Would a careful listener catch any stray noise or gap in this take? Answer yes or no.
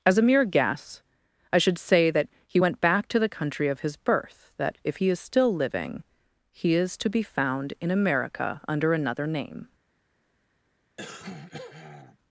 yes